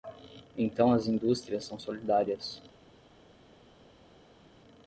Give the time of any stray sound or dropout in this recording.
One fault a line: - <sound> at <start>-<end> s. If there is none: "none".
none